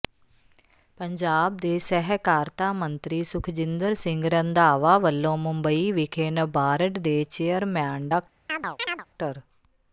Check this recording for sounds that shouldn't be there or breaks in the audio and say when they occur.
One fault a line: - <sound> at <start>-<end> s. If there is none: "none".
- chirp at 8.5-9.1 s